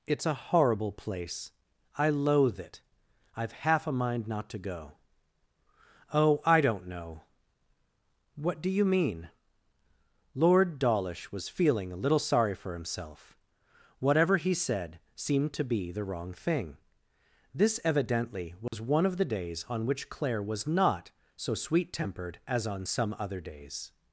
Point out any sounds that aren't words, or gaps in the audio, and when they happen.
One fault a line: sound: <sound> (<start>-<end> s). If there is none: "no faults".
sound: dropout (18.7-18.7 s)